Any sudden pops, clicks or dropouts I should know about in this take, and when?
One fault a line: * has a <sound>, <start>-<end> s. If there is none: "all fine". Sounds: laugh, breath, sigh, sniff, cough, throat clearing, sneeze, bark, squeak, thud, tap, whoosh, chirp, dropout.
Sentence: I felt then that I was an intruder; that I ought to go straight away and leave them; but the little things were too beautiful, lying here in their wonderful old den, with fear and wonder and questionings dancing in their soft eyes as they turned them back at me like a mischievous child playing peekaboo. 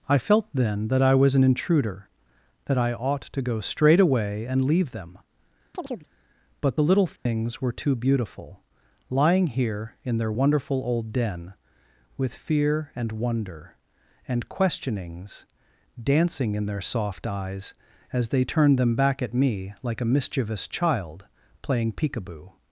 * has a chirp, 5.7-6.1 s
* has a dropout, 7.2-7.3 s